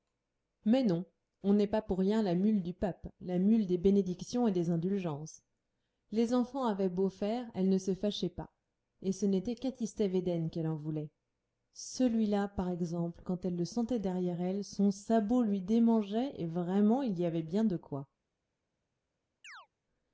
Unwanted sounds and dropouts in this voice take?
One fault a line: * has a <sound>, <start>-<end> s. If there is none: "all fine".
* has a chirp, 19.4-19.7 s